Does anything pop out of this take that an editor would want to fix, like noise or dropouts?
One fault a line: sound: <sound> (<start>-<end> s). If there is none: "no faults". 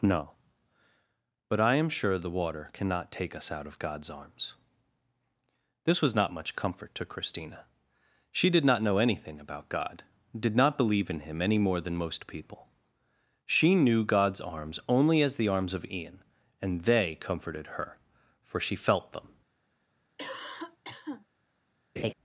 sound: cough (20.2-21.3 s)
sound: laugh (22.0-22.1 s)